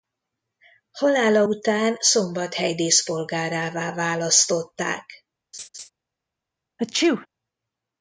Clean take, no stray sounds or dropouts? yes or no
no